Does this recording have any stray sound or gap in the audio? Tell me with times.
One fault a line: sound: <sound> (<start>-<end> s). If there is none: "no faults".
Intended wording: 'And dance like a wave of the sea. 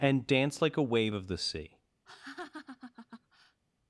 sound: laugh (2.1-3.6 s)